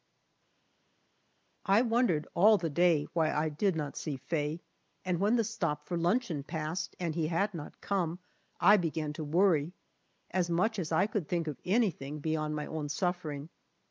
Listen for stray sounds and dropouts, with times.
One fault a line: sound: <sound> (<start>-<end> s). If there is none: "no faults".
no faults